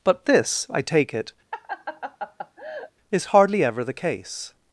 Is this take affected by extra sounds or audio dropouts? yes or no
yes